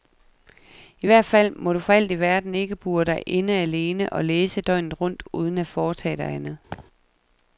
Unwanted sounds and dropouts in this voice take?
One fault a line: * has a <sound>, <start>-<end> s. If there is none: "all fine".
* has a laugh, 6.7-6.9 s